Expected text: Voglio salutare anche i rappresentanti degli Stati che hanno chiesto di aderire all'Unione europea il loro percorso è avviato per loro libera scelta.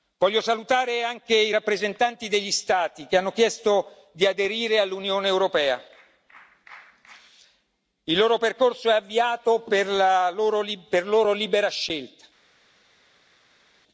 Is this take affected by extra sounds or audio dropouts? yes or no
no